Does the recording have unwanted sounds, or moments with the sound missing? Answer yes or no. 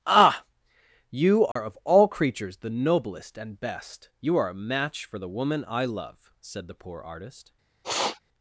yes